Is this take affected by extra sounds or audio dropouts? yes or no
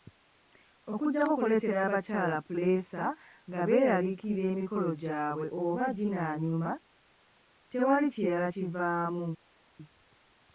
no